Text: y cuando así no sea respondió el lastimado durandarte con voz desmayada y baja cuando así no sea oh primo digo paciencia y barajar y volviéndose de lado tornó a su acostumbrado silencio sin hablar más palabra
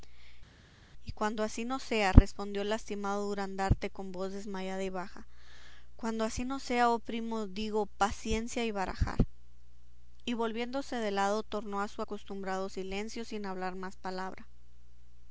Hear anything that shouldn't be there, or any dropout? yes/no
no